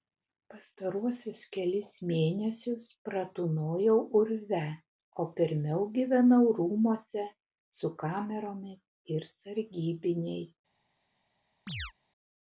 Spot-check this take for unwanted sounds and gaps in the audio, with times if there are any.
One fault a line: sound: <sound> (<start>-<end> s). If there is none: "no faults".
sound: chirp (11.7-11.9 s)